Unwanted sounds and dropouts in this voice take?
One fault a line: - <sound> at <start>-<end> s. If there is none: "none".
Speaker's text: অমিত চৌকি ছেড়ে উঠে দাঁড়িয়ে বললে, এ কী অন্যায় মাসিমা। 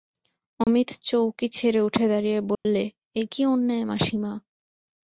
- dropout at 0.6-0.7 s
- dropout at 2.5-2.7 s